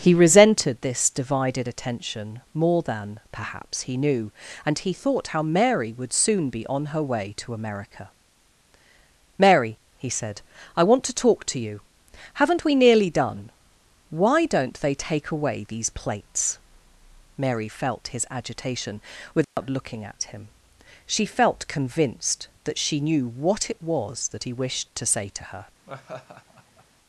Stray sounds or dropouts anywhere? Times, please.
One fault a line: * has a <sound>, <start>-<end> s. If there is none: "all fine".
* has a dropout, 19.4-19.6 s
* has a laugh, 25.9-26.9 s